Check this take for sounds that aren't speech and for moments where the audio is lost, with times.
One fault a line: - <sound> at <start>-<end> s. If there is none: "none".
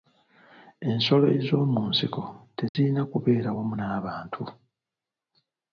- dropout at 2.7-2.7 s